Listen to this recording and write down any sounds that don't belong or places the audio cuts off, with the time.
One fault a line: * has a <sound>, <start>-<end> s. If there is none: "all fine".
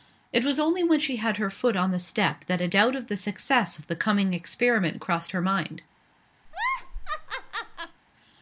* has a laugh, 6.5-8.0 s